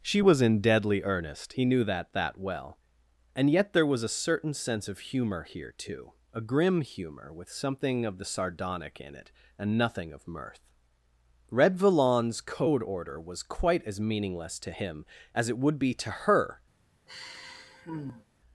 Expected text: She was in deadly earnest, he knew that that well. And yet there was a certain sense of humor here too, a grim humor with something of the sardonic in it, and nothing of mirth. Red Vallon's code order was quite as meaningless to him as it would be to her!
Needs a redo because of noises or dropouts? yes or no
yes